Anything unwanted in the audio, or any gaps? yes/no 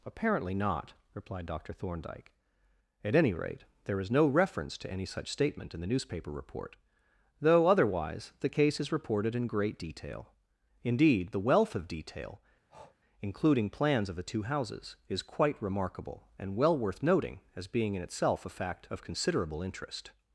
yes